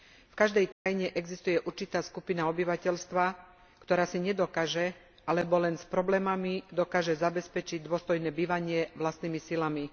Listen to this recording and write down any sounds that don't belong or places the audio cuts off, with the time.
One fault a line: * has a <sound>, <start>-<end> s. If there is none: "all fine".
* has a dropout, 0.7-0.9 s